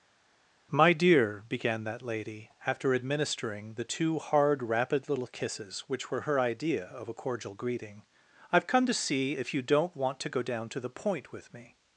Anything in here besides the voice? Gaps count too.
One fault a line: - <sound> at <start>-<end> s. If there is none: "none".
none